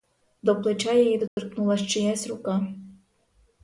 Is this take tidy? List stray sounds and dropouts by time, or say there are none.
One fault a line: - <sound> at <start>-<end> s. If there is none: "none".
- dropout at 1.3-1.4 s